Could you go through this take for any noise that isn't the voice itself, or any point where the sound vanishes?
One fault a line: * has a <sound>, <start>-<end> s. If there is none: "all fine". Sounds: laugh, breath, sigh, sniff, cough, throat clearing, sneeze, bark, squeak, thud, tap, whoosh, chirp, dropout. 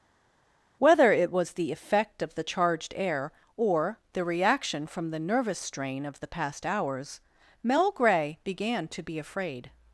all fine